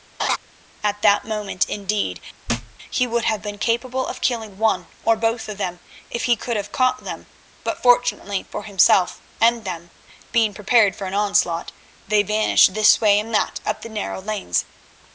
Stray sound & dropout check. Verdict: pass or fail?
fail